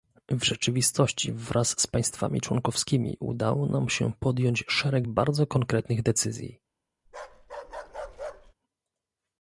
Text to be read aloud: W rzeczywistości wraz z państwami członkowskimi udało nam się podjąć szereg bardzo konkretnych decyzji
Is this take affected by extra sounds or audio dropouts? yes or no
yes